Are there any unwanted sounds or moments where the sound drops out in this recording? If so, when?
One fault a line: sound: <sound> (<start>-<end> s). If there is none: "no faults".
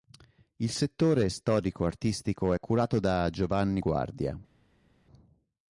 no faults